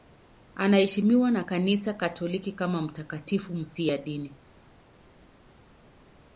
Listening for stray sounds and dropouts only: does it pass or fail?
pass